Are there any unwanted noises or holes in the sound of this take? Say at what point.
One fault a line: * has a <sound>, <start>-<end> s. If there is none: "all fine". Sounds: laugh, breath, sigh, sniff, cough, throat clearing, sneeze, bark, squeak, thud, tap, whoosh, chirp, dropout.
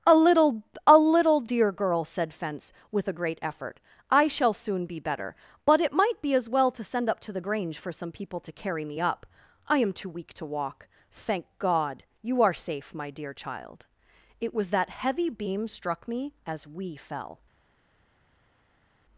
all fine